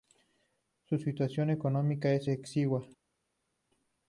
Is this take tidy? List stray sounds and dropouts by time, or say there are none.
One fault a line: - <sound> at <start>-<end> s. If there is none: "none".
none